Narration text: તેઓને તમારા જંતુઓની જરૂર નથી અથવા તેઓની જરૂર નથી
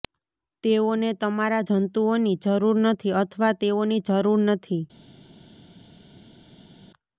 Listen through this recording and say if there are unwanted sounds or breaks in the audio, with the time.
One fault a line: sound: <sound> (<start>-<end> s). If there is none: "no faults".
no faults